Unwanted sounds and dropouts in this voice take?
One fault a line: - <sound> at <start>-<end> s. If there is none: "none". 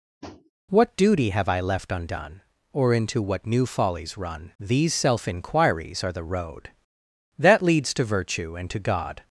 - tap at 0.2-0.5 s